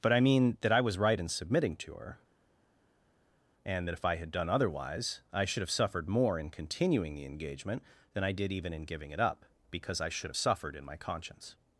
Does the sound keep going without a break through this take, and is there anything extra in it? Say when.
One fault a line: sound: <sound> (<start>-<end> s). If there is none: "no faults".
no faults